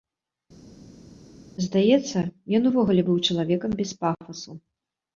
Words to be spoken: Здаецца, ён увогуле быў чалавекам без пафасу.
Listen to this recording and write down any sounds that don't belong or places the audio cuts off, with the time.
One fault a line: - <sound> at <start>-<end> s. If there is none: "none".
none